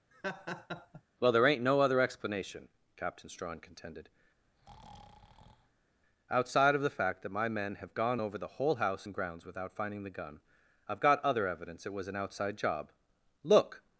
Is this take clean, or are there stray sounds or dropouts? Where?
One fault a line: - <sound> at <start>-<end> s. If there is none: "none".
- laugh at 0.1-1.0 s
- breath at 4.4-5.9 s